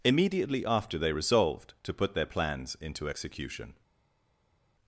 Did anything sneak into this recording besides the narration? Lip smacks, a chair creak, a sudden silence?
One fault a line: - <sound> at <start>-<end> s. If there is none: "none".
none